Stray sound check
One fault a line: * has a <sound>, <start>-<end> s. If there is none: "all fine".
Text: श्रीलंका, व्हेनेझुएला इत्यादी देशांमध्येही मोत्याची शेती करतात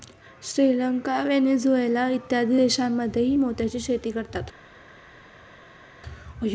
all fine